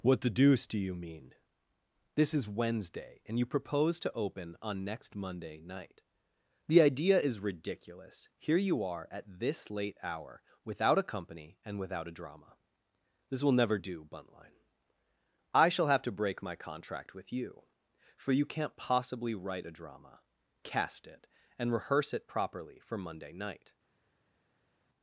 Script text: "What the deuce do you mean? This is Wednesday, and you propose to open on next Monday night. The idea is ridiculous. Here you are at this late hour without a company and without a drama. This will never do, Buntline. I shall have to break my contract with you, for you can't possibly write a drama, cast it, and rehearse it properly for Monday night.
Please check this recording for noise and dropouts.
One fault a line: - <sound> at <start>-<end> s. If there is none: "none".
none